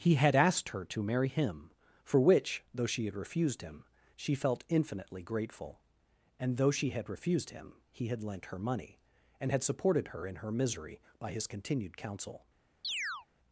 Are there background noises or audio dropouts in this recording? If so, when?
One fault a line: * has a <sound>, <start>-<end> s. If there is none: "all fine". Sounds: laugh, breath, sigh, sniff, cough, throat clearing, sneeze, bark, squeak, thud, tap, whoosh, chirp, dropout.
* has a chirp, 12.8-13.3 s